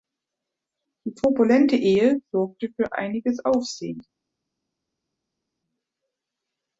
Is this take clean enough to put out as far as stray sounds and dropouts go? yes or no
yes